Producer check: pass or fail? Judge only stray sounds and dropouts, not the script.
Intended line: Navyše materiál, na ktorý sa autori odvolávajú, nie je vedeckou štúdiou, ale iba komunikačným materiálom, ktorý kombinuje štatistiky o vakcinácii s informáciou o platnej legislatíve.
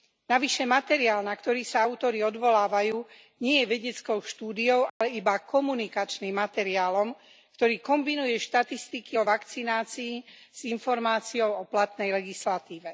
fail